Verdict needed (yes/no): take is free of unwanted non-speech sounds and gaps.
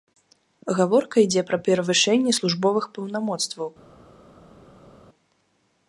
yes